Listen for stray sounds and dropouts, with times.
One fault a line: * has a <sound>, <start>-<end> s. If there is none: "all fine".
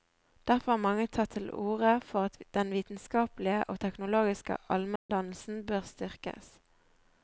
* has a dropout, 5.0-5.1 s